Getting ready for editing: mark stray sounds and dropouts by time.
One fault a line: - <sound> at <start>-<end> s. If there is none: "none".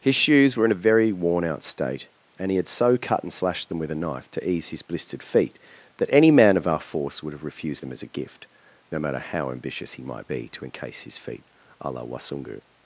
none